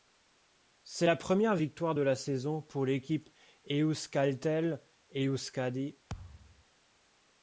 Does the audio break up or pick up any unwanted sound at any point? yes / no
yes